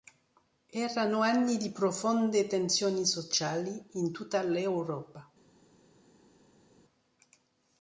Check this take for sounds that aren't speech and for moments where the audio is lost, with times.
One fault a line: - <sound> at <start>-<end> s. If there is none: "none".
none